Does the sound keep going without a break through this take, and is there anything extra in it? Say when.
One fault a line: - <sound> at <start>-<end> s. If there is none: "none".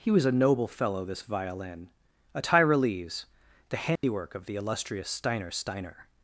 - dropout at 4.0-4.0 s